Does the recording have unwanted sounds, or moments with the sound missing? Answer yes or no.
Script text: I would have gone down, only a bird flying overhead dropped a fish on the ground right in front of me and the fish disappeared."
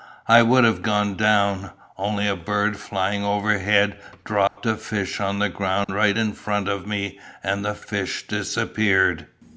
yes